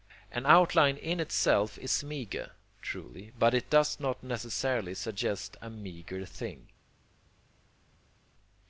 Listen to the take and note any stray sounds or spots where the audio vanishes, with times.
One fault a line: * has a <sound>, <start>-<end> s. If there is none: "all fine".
all fine